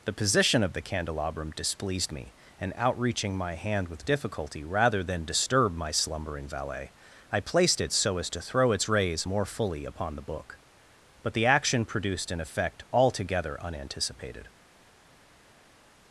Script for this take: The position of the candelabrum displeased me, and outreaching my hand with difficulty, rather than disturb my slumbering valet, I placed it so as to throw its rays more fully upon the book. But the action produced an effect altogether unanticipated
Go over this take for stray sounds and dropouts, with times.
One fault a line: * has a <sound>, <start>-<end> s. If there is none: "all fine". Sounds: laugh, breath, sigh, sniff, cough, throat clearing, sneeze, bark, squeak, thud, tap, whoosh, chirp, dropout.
all fine